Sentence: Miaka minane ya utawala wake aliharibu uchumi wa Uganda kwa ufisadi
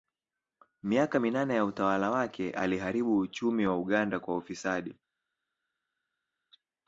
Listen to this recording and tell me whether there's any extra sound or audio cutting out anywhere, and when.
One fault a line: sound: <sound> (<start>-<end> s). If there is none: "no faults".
no faults